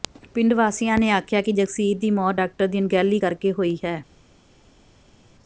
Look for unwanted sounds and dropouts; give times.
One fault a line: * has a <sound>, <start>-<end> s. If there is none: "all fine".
all fine